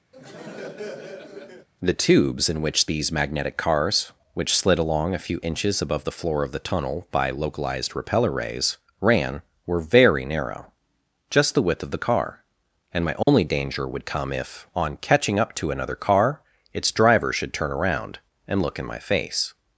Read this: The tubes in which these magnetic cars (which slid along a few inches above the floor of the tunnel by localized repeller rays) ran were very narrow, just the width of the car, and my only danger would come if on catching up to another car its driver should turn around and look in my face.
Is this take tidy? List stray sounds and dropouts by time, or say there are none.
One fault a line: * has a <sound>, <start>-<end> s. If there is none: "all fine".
* has a laugh, 0.1-1.7 s
* has a dropout, 13.2-13.3 s